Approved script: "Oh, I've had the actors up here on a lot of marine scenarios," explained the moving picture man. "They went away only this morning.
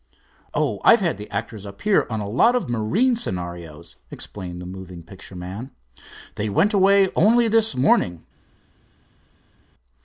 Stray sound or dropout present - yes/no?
no